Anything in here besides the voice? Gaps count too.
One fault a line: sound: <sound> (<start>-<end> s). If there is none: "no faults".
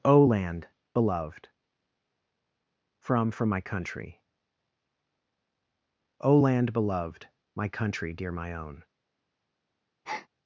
sound: breath (10.0-10.3 s)